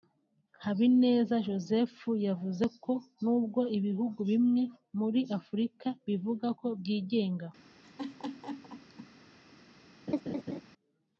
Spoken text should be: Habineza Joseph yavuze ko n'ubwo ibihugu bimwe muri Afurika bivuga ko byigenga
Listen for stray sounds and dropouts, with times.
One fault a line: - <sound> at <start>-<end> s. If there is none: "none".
- laugh at 7.8-9.1 s
- laugh at 10.1-10.6 s